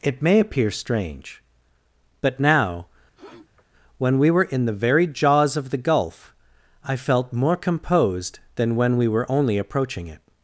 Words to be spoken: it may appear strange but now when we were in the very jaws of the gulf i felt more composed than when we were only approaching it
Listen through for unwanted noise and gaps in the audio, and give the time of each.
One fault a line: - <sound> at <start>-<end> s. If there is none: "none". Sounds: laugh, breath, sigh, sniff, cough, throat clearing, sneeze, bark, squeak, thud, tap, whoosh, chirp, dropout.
- sniff at 3.1-3.7 s